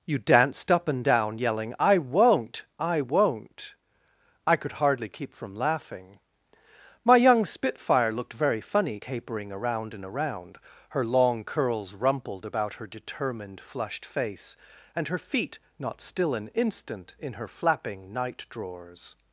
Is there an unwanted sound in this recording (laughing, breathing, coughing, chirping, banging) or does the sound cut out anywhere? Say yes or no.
no